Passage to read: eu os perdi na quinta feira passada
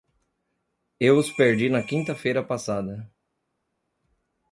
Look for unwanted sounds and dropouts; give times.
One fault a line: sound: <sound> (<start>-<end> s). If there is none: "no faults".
no faults